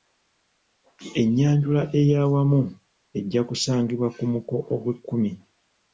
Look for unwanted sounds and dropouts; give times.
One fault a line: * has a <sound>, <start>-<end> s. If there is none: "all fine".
all fine